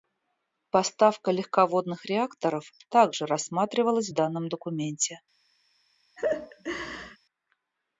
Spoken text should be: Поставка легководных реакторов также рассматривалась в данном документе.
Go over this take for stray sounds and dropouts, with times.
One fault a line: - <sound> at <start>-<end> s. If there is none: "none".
- laugh at 6.2-7.2 s